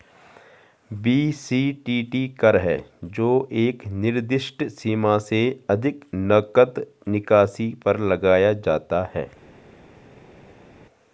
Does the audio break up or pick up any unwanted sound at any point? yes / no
no